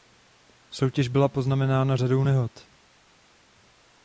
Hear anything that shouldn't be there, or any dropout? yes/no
no